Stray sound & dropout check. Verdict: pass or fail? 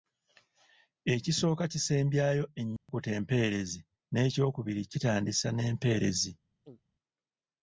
fail